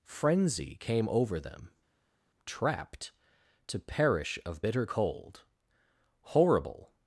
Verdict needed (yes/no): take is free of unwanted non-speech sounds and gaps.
yes